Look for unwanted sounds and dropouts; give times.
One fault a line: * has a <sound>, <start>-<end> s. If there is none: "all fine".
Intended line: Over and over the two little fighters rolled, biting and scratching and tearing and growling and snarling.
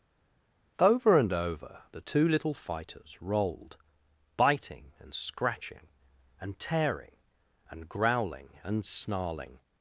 all fine